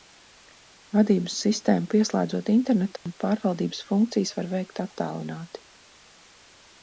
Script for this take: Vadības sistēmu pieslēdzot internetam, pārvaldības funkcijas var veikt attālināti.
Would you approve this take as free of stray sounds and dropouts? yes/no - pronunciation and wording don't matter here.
no